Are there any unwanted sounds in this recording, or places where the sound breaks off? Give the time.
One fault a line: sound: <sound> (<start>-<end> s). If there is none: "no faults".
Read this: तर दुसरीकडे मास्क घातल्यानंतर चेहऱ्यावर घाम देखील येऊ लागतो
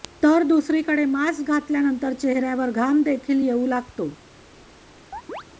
sound: chirp (5.1-5.4 s)